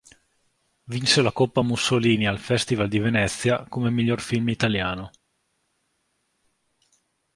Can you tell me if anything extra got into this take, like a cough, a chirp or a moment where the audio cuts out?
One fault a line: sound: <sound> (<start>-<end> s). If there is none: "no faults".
no faults